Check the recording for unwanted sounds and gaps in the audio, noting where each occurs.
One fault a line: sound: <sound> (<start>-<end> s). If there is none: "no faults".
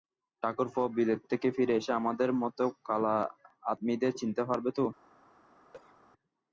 sound: cough (5.7-6.0 s)